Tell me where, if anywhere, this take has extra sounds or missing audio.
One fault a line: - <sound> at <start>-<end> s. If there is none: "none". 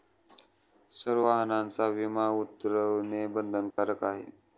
- dropout at 3.7-3.8 s